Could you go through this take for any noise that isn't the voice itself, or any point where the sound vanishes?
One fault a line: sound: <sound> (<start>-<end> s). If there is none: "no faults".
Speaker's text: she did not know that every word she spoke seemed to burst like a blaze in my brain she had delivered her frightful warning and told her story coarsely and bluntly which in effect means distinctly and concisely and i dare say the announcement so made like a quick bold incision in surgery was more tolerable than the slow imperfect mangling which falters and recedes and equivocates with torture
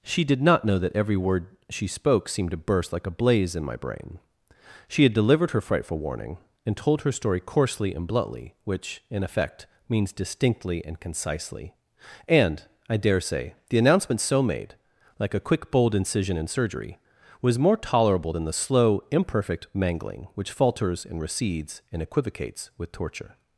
no faults